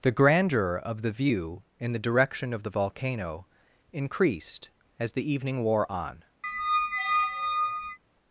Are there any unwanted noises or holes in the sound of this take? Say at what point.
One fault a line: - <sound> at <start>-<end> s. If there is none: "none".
- squeak at 6.4-8.0 s